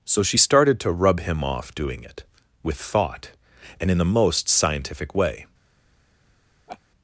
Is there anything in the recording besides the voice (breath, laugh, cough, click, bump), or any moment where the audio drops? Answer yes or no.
yes